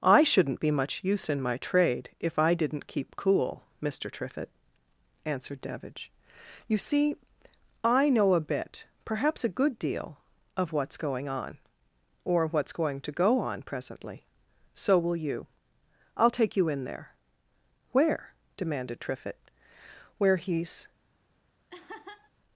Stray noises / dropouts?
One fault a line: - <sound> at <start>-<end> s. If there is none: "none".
- laugh at 21.7-22.3 s